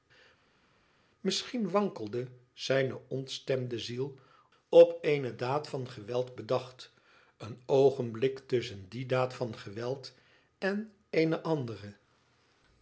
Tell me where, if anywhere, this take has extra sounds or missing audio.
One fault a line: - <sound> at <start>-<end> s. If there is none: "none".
none